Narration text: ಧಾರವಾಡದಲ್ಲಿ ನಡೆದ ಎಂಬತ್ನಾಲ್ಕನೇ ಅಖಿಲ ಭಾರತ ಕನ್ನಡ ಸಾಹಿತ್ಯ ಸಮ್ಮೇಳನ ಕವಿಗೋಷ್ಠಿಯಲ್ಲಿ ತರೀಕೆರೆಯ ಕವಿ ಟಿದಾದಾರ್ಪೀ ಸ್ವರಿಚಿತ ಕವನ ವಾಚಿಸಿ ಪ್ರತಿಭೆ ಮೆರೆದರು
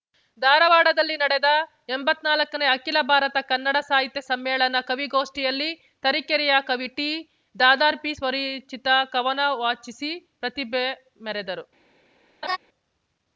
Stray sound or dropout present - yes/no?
yes